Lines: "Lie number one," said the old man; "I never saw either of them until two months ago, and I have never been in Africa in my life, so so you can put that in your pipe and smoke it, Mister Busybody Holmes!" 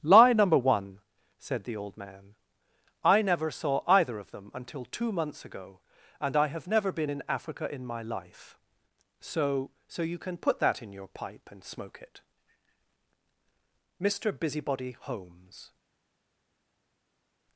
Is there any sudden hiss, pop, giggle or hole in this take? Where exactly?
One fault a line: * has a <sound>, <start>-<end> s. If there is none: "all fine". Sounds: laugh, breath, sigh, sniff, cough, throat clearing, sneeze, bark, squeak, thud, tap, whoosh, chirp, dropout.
all fine